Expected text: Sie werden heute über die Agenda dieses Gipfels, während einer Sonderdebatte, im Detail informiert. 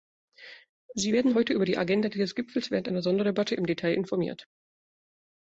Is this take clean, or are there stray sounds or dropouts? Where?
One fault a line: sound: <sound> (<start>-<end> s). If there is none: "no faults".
no faults